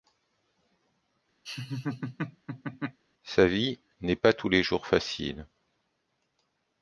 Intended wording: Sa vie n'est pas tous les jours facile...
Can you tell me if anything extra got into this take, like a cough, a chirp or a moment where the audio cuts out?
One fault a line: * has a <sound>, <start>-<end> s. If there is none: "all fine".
* has a laugh, 1.5-3.0 s